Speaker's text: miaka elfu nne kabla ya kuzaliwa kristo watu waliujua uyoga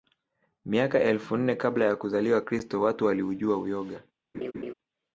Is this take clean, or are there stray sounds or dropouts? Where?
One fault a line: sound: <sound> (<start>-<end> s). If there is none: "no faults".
sound: laugh (4.3-4.7 s)